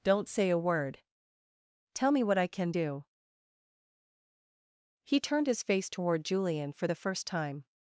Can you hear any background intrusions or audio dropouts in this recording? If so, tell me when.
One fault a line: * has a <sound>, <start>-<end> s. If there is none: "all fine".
all fine